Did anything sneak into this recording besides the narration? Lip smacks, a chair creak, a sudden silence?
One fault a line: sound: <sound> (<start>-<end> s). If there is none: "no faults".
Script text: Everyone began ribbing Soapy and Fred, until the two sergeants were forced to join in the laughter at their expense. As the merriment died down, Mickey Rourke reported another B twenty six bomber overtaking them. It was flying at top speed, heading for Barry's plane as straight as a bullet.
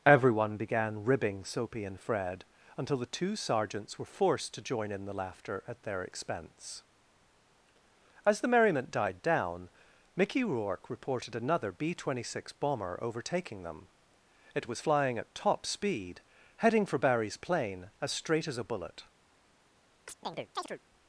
sound: chirp (20.1-20.8 s)